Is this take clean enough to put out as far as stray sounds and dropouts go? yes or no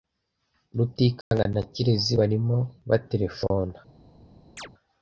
no